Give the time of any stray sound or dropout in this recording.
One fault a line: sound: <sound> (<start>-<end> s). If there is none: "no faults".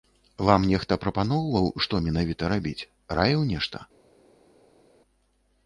no faults